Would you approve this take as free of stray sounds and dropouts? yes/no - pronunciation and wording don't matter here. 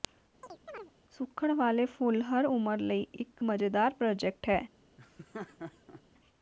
no